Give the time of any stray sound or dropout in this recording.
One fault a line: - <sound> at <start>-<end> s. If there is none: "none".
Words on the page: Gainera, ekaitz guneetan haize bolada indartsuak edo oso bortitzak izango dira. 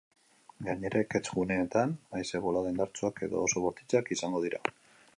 none